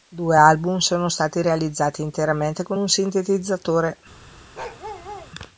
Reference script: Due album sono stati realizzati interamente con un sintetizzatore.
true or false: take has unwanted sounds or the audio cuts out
true